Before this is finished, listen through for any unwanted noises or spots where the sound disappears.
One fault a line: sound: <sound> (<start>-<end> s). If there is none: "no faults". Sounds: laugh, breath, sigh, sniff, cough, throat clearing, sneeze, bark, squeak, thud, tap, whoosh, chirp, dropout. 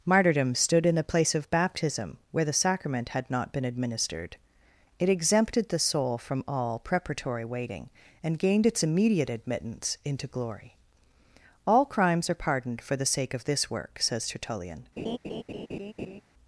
sound: laugh (15.0-16.2 s)